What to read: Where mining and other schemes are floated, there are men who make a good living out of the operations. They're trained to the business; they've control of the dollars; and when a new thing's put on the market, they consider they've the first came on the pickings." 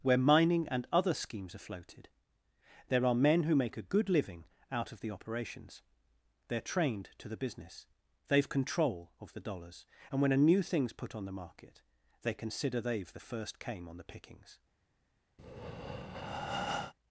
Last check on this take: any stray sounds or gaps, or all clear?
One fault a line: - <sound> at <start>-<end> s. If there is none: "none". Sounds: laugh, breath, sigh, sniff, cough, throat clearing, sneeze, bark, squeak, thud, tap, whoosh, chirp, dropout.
- breath at 15.4-16.9 s